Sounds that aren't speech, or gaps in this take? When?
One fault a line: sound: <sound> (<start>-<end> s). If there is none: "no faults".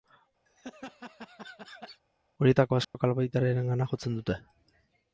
sound: laugh (0.5-2.0 s)
sound: dropout (2.8-2.9 s)